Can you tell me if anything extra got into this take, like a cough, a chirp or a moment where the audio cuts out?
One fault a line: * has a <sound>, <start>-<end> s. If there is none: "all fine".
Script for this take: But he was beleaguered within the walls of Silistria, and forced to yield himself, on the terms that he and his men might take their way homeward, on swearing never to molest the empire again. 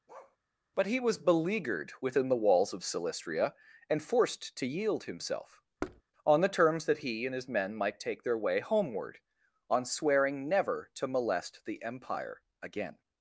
* has a bark, 0.1-0.4 s
* has a thud, 5.8-6.0 s